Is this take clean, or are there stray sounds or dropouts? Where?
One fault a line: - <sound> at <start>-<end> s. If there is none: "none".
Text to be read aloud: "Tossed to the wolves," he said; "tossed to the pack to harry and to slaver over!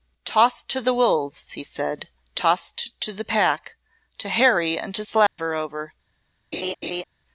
- dropout at 5.3-5.4 s
- laugh at 6.5-7.0 s